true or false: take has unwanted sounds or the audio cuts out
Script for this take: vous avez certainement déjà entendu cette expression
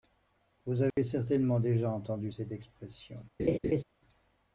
true